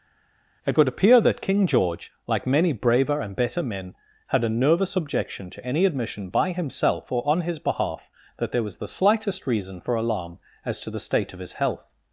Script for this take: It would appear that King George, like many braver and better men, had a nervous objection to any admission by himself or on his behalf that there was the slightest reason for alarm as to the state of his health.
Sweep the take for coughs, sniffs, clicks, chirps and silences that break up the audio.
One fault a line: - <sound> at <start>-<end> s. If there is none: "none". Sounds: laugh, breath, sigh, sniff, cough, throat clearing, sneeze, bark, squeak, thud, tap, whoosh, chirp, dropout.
none